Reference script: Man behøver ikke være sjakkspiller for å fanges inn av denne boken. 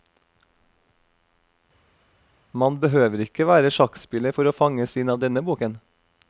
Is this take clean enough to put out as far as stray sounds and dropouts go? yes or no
yes